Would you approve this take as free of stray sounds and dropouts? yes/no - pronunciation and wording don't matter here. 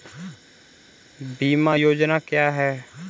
yes